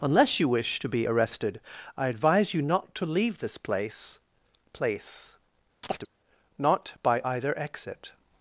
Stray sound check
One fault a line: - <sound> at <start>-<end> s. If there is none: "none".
- chirp at 5.8-6.1 s